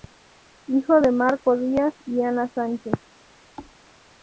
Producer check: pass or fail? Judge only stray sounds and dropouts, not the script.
fail